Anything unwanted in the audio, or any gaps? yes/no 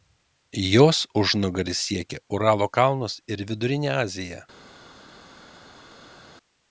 no